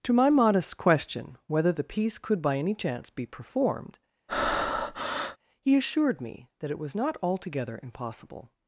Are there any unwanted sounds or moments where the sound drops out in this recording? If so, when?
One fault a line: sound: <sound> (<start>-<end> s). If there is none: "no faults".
sound: breath (4.3-5.4 s)